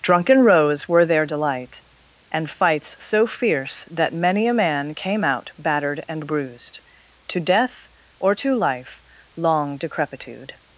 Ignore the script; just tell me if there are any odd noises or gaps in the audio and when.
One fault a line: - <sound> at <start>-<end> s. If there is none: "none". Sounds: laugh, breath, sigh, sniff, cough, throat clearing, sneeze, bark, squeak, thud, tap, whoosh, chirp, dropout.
none